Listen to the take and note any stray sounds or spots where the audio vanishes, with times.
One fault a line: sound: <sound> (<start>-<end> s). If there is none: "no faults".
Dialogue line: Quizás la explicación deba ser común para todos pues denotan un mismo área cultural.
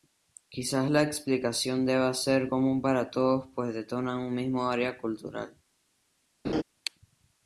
sound: laugh (6.4-6.6 s)